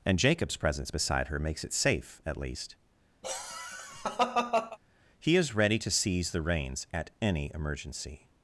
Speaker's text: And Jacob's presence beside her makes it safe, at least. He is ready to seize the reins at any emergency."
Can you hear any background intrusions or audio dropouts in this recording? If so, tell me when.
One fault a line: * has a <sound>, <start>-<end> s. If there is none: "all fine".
* has a laugh, 3.2-4.8 s